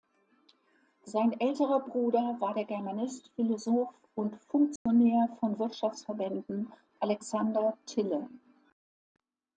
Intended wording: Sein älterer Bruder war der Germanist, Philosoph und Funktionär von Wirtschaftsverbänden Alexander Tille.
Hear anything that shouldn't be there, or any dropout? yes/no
yes